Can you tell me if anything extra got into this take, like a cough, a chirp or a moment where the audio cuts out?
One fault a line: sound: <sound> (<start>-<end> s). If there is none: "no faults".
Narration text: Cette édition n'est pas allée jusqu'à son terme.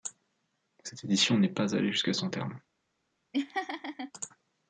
sound: laugh (3.3-4.1 s)